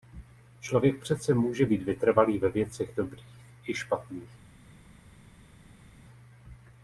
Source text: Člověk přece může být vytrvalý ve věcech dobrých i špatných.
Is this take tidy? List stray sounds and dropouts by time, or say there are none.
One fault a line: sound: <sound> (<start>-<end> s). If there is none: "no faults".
no faults